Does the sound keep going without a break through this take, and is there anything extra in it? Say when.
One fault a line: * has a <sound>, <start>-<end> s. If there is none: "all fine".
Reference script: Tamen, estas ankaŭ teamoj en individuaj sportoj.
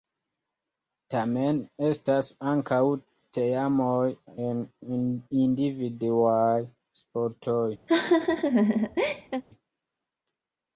* has a laugh, 7.9-9.4 s